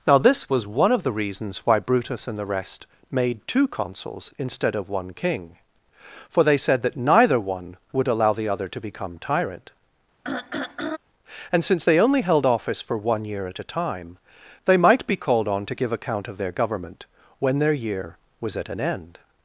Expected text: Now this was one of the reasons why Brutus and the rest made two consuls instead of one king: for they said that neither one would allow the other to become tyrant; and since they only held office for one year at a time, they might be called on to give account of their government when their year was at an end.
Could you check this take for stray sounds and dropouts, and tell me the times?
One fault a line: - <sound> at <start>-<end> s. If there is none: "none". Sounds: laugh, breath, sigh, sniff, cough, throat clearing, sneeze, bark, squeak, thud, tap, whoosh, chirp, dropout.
- throat clearing at 10.2-11.0 s